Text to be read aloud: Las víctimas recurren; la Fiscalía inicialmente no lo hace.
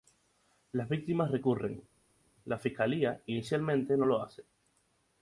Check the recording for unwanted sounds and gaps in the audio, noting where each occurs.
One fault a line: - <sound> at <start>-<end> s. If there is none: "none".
none